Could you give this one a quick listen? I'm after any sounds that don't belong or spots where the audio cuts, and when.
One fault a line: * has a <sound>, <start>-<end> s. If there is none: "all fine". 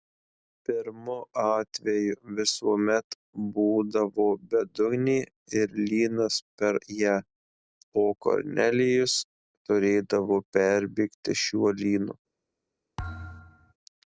* has a thud, 13.0-13.7 s